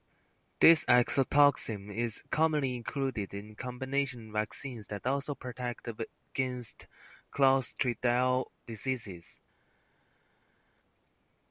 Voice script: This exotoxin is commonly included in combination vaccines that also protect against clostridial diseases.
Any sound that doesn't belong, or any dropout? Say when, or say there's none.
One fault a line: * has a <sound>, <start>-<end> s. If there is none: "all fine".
all fine